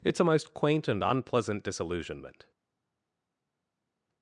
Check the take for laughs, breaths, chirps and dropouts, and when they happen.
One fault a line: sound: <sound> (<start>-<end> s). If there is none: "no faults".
no faults